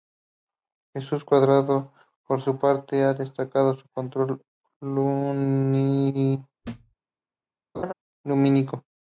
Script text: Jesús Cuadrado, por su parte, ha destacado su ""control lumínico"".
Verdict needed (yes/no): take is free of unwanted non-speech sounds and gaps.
no